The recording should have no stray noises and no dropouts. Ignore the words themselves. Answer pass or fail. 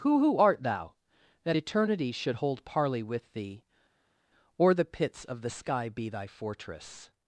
pass